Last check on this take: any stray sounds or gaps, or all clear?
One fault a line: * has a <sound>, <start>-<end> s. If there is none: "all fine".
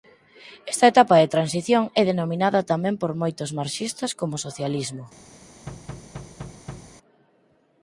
* has a thud, 5.7-7.0 s